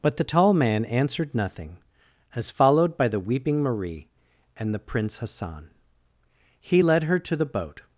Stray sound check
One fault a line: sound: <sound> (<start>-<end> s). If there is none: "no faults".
no faults